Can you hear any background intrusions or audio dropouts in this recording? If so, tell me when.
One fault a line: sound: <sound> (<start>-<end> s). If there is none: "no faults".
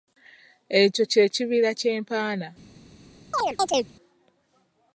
sound: chirp (3.3-3.9 s)